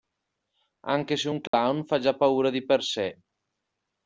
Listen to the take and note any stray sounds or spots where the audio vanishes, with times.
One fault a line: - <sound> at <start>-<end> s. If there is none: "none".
- dropout at 1.5-1.5 s